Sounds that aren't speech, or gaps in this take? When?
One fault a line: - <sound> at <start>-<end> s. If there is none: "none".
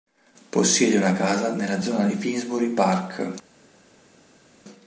none